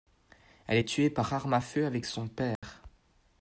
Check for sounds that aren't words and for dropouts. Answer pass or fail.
fail